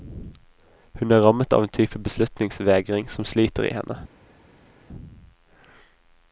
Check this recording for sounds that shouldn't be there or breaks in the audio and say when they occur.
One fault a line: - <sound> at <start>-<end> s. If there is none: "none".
none